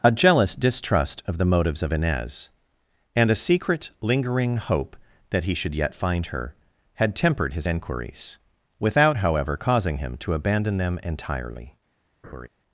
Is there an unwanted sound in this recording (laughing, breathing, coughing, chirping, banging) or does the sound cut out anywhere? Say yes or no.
yes